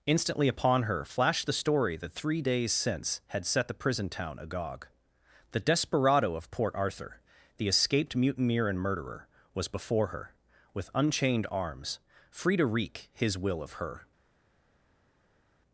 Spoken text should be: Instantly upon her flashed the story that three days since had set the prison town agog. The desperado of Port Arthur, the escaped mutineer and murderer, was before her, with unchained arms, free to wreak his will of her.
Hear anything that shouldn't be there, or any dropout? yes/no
no